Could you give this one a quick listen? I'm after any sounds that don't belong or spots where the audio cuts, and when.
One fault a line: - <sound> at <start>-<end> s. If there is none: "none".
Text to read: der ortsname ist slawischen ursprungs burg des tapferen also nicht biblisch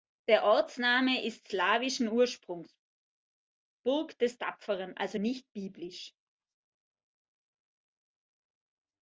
none